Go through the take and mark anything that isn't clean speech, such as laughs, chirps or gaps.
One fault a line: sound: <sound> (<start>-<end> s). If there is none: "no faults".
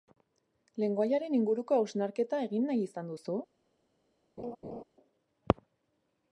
sound: laugh (4.4-4.8 s)